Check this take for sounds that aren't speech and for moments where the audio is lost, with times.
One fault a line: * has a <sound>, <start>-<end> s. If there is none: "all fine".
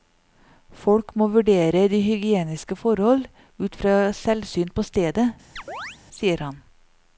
* has a chirp, 5.6-6.0 s